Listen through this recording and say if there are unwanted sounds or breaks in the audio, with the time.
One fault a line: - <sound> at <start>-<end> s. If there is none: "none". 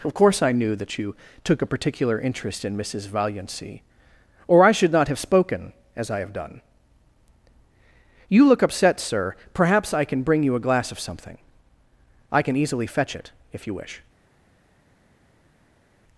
none